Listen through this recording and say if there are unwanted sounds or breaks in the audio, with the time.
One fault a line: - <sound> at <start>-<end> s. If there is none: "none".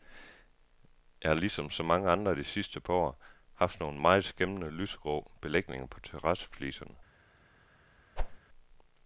- whoosh at 8.2-8.4 s